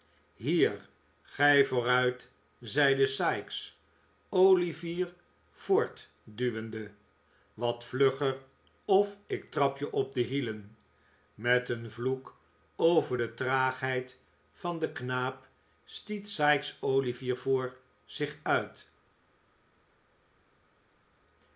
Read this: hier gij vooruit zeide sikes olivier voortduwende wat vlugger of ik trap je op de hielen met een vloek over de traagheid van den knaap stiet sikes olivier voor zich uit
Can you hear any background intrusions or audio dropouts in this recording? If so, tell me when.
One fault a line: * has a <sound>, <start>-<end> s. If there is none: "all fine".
all fine